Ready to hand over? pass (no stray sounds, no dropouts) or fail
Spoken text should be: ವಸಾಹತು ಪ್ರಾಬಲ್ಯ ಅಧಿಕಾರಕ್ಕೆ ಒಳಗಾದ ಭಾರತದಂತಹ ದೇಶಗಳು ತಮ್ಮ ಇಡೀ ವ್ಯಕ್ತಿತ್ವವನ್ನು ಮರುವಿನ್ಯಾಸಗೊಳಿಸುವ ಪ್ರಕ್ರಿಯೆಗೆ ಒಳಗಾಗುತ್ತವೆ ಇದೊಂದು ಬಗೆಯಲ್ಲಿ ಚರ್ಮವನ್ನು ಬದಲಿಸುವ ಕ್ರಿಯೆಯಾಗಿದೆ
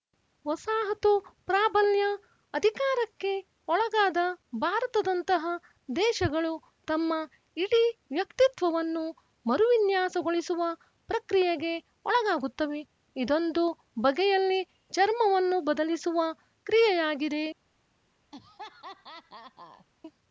fail